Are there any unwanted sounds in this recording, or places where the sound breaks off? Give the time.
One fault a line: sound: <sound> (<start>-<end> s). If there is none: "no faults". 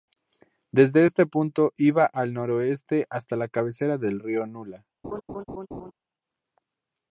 sound: laugh (5.0-5.9 s)